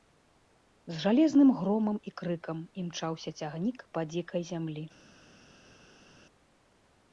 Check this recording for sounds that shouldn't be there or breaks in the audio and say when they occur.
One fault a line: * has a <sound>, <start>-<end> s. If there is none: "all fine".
all fine